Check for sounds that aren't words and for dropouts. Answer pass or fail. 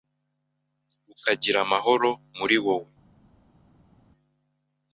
pass